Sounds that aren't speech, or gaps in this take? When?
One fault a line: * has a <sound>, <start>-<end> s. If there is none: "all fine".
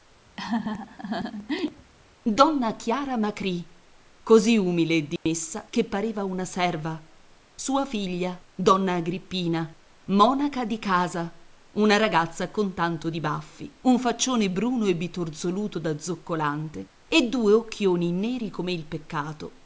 * has a laugh, 0.4-1.9 s
* has a dropout, 5.2-5.3 s